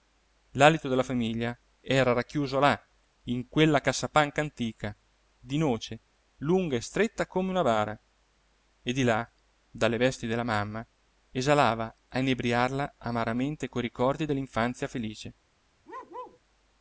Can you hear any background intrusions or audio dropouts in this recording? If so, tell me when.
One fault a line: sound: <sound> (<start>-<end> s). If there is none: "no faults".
sound: bark (15.9-16.4 s)